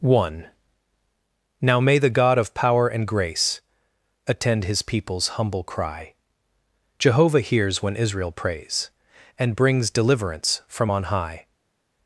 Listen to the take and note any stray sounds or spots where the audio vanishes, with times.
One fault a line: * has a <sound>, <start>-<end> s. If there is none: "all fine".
all fine